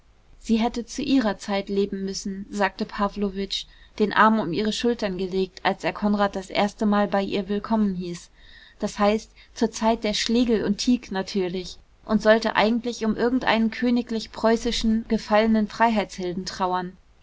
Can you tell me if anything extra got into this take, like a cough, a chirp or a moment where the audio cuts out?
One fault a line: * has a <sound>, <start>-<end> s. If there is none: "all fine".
all fine